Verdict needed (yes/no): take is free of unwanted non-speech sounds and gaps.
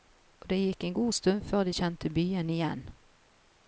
yes